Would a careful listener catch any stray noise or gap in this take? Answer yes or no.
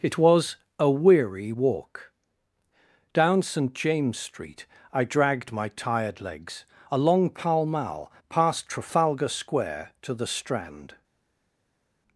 no